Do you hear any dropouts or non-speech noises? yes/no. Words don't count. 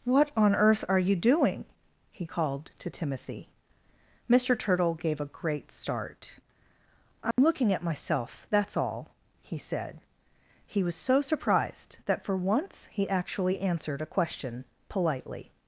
yes